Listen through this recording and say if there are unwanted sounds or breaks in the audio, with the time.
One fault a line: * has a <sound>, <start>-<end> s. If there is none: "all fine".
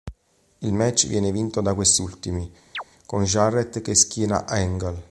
* has a chirp, 2.7-2.8 s